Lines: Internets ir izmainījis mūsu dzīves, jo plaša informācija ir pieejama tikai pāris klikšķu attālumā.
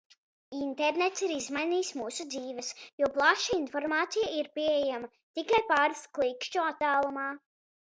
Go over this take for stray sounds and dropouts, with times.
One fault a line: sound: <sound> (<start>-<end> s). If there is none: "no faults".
no faults